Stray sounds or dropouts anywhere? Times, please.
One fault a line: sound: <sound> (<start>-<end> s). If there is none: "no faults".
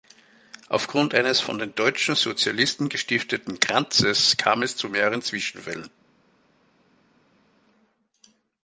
no faults